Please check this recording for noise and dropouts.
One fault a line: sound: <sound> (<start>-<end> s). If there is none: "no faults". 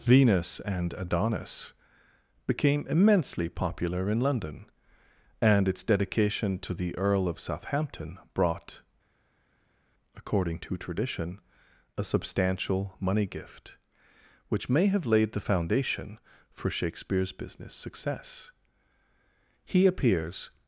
no faults